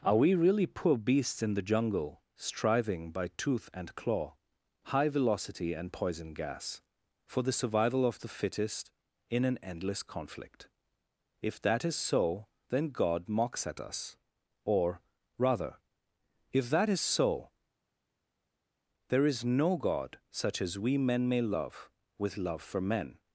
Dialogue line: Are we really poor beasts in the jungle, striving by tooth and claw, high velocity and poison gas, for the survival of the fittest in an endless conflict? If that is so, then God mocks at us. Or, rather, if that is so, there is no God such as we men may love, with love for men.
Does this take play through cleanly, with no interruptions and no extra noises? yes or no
yes